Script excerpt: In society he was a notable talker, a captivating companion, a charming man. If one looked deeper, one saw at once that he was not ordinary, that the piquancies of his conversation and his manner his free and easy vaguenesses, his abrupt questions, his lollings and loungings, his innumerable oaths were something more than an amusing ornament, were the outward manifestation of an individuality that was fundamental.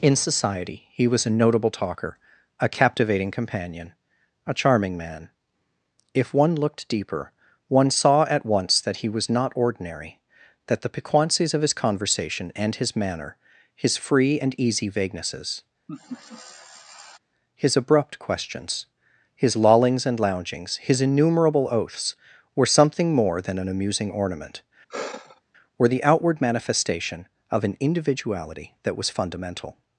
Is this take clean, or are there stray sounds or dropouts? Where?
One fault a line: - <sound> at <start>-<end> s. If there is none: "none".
- laugh at 15.9-17.2 s
- sigh at 24.9-25.4 s